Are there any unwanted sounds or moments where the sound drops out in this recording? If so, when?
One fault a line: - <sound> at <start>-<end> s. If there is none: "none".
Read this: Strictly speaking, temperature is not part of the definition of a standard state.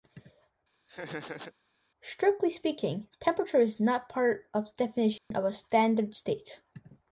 - laugh at 0.9-1.5 s
- dropout at 5.2-5.3 s